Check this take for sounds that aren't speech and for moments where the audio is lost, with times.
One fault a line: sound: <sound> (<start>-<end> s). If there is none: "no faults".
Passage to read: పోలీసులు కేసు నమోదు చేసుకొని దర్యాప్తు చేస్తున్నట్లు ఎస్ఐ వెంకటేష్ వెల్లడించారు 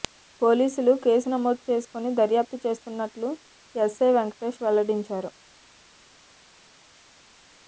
no faults